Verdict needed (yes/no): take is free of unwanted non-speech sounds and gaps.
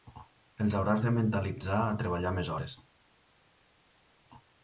yes